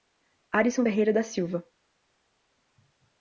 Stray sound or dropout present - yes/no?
no